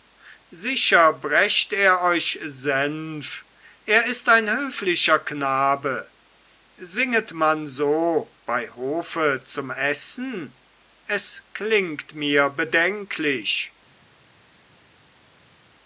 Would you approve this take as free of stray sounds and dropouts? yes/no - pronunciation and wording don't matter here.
yes